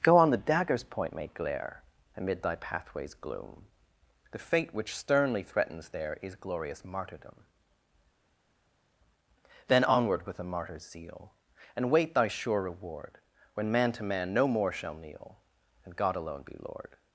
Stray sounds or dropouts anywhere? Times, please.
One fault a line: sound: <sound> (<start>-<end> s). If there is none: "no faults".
no faults